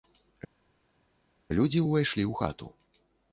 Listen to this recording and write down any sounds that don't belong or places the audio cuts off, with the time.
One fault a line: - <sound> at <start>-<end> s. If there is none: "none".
none